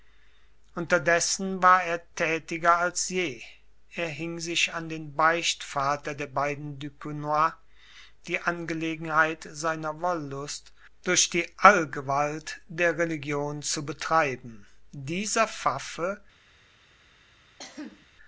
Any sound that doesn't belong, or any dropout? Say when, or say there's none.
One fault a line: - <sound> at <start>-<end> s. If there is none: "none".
- cough at 17.6-18.1 s